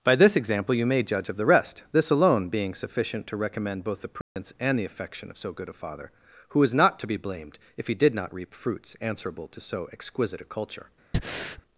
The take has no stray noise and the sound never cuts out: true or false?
false